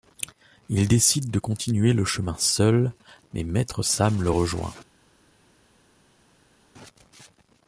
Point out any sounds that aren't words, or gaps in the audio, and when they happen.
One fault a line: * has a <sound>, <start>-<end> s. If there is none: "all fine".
all fine